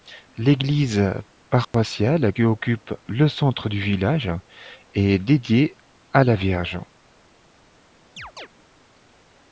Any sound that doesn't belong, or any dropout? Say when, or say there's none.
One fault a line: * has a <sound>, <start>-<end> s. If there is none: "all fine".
* has a dropout, 1.6-1.7 s
* has a chirp, 8.2-8.5 s